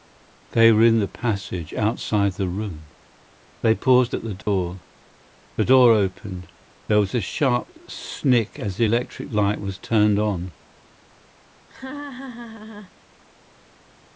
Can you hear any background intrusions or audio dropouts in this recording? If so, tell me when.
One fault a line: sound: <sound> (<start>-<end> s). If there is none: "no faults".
sound: dropout (4.4-4.5 s)
sound: laugh (11.7-12.9 s)